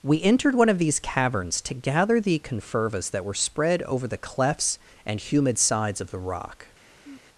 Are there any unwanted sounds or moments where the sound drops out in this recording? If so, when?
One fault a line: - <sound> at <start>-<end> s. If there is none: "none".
- sigh at 7.0-7.3 s